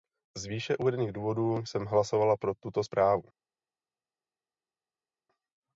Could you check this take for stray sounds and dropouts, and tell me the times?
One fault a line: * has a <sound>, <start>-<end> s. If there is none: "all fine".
all fine